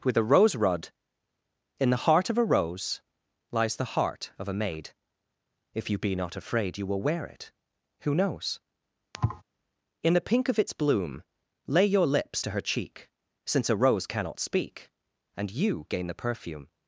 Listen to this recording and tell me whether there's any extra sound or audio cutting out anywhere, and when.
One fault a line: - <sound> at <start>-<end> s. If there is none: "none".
- thud at 9.1-9.4 s